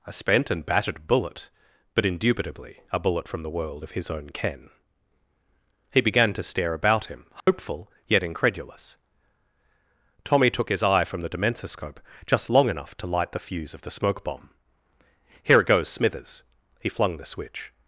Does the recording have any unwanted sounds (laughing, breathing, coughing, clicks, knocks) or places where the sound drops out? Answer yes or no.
yes